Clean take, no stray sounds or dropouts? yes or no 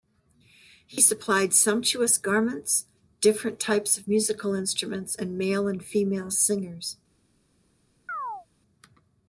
no